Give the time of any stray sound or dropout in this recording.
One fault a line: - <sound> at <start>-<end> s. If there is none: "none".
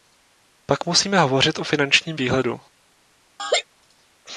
- laugh at 3.4-3.6 s